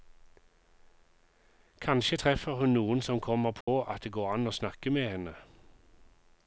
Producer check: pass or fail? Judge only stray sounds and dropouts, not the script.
fail